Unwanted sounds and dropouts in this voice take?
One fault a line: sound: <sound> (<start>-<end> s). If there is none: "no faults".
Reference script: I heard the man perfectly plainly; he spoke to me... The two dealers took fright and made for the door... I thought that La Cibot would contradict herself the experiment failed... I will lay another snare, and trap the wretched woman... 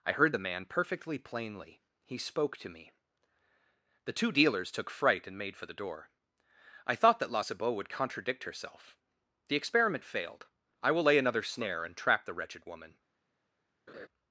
sound: laugh (13.9-14.1 s)